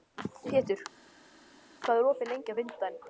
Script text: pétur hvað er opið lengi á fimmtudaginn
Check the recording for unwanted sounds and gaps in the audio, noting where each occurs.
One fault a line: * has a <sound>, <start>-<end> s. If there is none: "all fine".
all fine